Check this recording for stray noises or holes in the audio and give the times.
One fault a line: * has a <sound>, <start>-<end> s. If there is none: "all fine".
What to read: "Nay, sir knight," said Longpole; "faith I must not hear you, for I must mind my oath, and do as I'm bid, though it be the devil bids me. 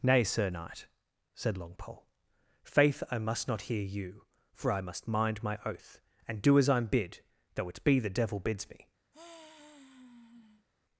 * has a sigh, 9.1-10.7 s